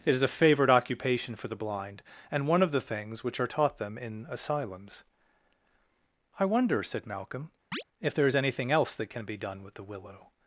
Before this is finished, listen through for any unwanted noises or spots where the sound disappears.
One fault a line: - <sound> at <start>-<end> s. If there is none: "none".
- chirp at 7.7-7.8 s